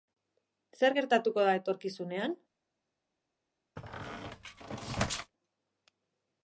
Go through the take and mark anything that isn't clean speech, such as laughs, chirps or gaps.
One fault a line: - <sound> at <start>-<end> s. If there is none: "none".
- squeak at 3.8-5.3 s